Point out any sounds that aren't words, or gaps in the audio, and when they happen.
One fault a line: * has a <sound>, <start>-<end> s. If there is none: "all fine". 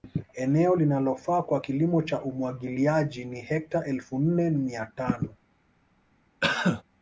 * has a cough, 6.4-6.8 s